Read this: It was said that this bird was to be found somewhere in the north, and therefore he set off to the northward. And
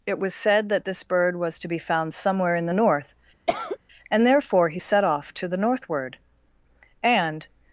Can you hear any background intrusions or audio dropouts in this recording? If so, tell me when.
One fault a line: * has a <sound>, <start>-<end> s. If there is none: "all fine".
* has a cough, 3.5-3.8 s